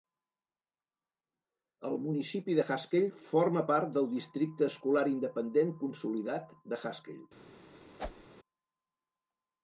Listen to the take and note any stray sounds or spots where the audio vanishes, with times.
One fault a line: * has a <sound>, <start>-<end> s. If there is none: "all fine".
* has a whoosh, 8.0-8.3 s